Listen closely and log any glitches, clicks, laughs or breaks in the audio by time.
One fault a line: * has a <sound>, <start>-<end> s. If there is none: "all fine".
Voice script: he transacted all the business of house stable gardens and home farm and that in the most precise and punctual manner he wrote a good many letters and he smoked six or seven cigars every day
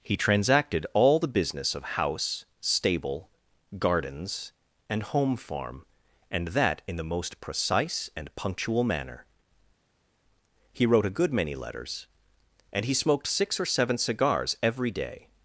all fine